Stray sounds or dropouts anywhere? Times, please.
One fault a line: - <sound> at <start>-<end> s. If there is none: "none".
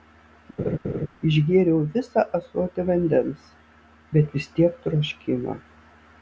- laugh at 0.6-1.1 s